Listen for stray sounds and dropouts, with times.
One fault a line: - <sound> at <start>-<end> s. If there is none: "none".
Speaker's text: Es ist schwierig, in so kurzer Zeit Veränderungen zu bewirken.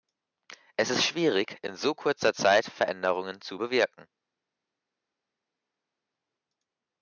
none